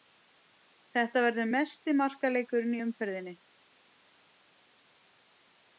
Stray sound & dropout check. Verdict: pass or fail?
pass